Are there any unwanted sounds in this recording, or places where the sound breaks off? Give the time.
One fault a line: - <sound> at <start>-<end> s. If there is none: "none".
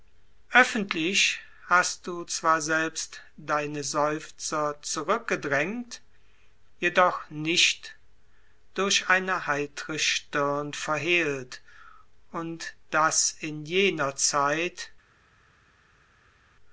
none